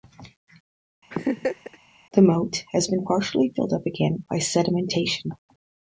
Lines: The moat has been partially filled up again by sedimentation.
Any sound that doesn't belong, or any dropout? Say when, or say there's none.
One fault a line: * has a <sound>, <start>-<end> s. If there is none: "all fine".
* has a laugh, 1.1-1.8 s